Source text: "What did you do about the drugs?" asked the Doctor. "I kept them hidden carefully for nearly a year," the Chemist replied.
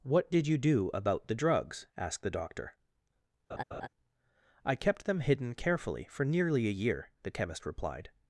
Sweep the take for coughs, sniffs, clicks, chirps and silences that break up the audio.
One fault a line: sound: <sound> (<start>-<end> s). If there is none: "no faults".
sound: laugh (3.5-3.9 s)